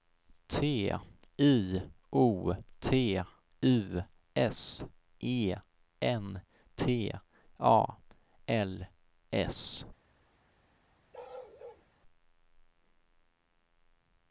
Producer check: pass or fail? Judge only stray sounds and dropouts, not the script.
fail